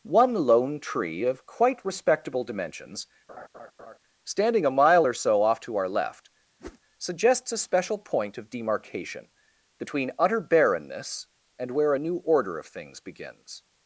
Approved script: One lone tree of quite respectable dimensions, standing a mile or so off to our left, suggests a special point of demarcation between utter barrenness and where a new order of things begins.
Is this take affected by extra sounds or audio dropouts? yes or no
yes